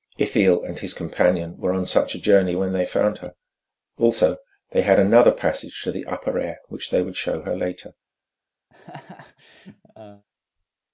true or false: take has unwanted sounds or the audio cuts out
true